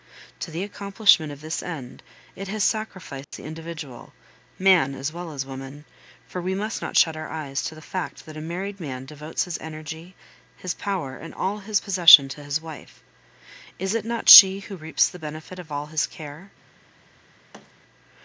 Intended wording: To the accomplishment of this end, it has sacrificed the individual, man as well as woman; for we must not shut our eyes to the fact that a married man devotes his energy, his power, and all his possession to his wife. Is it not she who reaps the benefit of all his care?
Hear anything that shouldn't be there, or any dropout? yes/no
yes